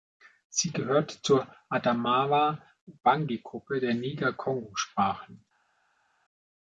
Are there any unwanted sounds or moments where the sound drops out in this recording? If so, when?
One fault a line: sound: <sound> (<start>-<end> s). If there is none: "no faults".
no faults